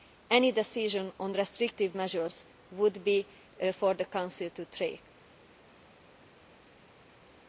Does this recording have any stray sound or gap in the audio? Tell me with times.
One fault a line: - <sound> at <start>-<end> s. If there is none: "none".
none